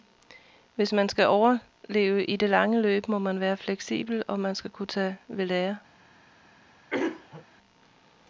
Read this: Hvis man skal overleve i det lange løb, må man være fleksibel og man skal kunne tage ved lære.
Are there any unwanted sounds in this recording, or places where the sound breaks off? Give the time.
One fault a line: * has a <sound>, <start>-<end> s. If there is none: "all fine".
* has a throat clearing, 6.9-7.5 s